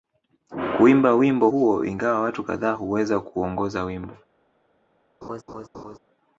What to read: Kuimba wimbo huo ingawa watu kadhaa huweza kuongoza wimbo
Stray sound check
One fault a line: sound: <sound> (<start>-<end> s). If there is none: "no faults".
sound: laugh (5.2-6.0 s)